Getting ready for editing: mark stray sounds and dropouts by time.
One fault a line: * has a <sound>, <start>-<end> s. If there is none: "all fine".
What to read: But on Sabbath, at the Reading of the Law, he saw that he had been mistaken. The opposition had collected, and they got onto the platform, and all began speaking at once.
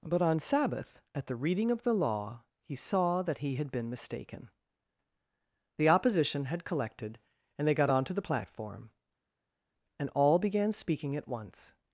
all fine